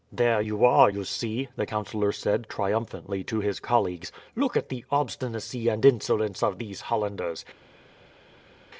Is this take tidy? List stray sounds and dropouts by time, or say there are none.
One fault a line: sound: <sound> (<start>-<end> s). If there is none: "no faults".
no faults